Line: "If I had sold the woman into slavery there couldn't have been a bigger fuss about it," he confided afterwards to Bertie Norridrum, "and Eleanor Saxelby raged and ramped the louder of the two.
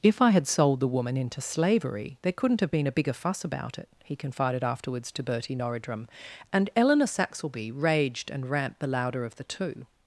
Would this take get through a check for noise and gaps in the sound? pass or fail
pass